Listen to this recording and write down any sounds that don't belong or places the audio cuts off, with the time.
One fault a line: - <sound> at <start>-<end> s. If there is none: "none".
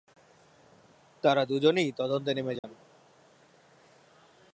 - dropout at 2.6-2.6 s